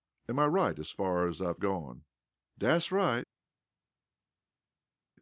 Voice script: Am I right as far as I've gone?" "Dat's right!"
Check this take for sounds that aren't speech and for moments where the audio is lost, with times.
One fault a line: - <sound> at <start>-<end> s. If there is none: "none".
none